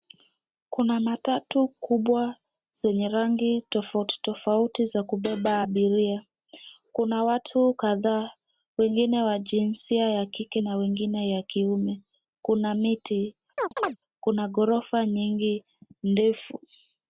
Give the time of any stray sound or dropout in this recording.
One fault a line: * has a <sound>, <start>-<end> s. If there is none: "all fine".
* has a chirp, 13.6-14.0 s